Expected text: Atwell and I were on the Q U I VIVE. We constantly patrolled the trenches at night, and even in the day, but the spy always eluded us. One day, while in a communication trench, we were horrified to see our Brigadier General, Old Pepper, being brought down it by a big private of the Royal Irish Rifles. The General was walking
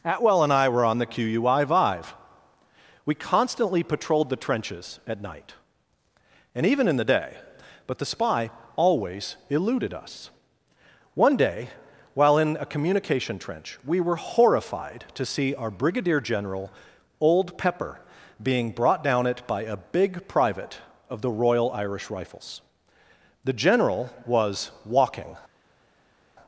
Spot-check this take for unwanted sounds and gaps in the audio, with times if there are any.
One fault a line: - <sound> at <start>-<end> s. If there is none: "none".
none